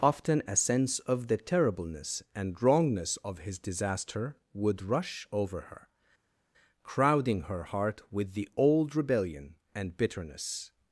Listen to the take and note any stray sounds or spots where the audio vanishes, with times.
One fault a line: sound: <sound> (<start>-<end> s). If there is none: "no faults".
no faults